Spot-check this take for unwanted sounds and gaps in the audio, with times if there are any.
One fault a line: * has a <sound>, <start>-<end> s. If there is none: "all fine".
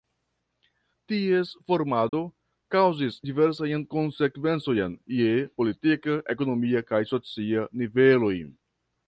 * has a dropout, 2.1-2.1 s